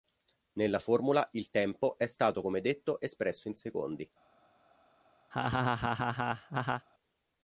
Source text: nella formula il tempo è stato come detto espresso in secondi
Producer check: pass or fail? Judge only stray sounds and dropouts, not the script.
fail